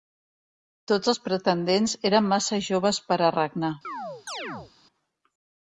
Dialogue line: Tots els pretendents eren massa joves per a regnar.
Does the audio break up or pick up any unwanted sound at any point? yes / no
yes